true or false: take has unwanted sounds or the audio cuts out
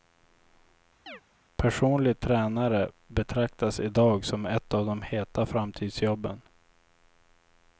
true